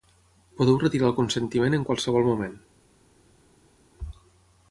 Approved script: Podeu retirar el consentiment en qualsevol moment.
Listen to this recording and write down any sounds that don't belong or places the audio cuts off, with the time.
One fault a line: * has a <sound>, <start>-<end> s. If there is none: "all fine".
all fine